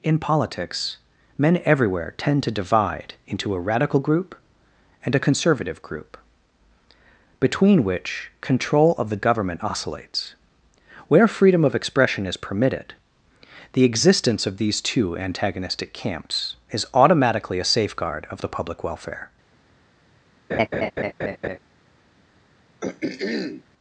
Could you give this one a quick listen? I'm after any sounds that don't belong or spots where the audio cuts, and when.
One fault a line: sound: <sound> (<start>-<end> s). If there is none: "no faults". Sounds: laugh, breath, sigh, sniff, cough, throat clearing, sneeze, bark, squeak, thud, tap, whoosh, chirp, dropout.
sound: laugh (20.5-21.6 s)
sound: throat clearing (22.8-23.6 s)